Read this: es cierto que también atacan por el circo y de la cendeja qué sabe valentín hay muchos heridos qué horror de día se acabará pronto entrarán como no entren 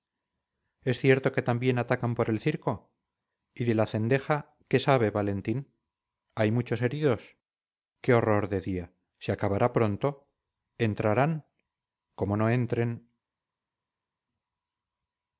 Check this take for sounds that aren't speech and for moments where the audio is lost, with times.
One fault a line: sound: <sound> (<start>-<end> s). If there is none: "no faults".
no faults